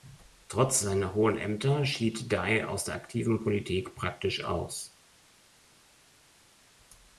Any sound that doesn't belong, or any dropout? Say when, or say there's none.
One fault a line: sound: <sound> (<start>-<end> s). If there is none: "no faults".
no faults